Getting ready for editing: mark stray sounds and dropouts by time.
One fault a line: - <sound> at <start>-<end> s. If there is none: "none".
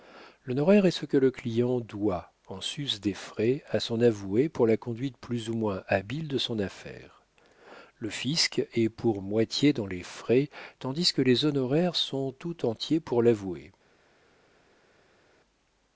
none